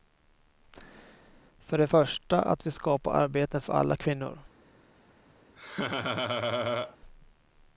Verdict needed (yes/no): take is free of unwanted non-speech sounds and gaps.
no